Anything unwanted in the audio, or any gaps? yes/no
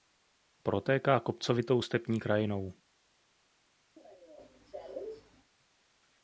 yes